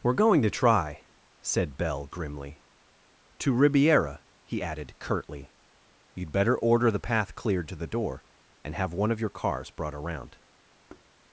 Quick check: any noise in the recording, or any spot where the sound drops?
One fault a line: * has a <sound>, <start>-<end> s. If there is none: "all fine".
* has a thud, 10.9-11.1 s